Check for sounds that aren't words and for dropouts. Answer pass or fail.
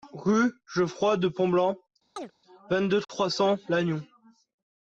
fail